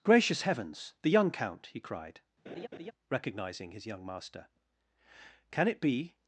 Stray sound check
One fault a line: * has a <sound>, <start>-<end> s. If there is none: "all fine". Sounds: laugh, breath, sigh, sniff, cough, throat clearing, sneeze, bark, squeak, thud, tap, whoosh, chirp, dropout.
* has a laugh, 2.5-2.9 s